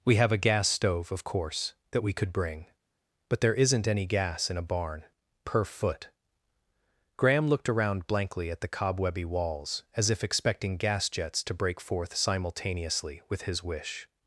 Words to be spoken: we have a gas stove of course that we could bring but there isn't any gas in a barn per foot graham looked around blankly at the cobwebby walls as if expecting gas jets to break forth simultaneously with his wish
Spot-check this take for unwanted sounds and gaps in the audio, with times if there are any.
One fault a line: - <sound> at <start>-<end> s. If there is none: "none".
none